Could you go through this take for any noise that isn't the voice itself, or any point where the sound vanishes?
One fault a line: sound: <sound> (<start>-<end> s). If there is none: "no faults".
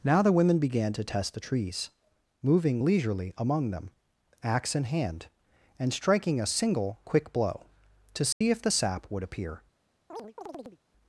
sound: dropout (8.3-8.4 s)
sound: chirp (10.1-10.8 s)